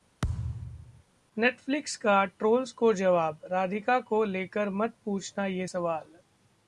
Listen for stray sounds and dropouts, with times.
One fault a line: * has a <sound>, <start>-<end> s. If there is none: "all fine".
* has a thud, 0.2-1.0 s